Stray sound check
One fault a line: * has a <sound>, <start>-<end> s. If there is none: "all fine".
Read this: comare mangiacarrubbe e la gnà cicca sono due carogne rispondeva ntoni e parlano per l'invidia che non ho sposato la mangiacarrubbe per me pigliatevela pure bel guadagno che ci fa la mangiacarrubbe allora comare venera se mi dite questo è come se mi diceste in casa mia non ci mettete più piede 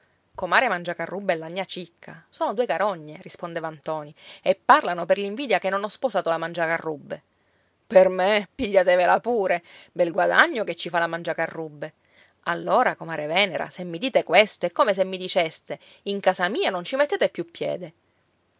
all fine